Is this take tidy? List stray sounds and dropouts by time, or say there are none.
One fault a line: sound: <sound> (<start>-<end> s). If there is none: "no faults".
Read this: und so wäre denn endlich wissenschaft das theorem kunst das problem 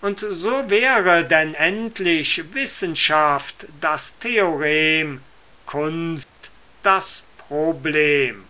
sound: dropout (6.2-6.4 s)